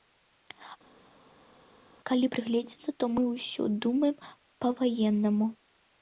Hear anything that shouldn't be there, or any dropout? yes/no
no